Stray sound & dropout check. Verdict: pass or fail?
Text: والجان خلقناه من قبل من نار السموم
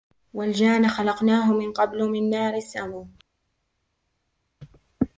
pass